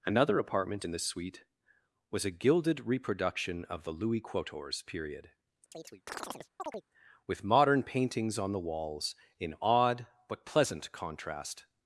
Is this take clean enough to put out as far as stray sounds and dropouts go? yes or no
no